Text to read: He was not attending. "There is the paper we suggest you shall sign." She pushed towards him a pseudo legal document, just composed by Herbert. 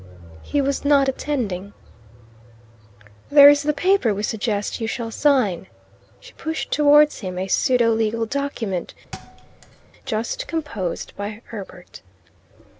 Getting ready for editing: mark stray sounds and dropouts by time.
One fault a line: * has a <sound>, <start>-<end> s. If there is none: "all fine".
* has a thud, 9.1-9.9 s